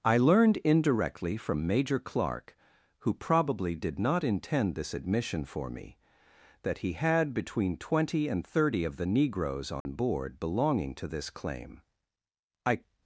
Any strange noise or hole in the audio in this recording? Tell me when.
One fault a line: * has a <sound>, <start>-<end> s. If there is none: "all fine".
* has a dropout, 9.8-9.9 s